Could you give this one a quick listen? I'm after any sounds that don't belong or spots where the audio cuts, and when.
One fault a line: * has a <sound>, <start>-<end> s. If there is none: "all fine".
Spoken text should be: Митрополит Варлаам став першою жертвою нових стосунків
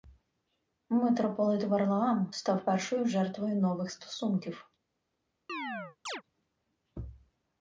* has a chirp, 5.5-6.2 s